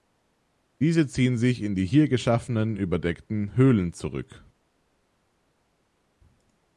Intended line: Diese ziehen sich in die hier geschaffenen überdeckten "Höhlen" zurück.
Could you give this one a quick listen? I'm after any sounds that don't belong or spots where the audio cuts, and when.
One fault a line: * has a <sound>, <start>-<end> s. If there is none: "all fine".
all fine